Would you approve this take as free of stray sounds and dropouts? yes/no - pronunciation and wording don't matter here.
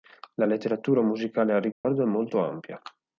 no